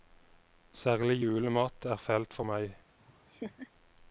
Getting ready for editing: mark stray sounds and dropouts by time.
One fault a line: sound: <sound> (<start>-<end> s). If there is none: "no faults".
sound: laugh (3.0-3.7 s)